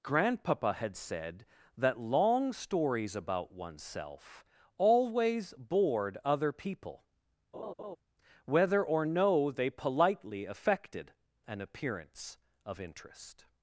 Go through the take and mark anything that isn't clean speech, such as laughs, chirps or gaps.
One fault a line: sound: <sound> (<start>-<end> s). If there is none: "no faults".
sound: laugh (7.5-8.0 s)